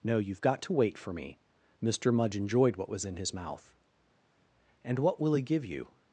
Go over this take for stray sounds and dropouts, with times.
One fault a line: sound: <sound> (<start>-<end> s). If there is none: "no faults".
no faults